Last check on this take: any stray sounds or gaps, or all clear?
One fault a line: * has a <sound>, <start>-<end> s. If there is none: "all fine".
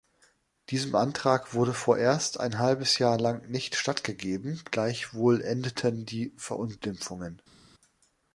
all fine